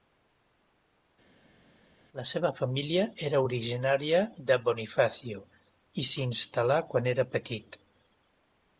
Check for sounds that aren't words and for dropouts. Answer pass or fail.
pass